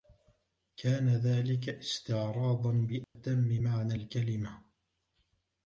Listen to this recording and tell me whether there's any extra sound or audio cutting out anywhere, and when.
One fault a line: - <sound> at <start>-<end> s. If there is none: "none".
- dropout at 3.0-3.2 s